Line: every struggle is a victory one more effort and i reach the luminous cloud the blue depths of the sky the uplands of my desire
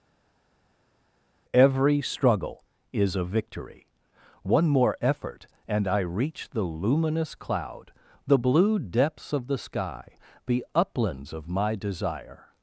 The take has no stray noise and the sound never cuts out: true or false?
true